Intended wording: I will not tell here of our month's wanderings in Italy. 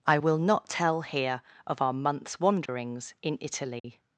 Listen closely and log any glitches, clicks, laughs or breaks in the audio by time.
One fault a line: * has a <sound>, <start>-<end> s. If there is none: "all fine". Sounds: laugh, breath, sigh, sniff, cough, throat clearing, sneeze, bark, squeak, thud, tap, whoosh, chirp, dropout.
* has a dropout, 2.7-2.7 s
* has a dropout, 3.8-3.8 s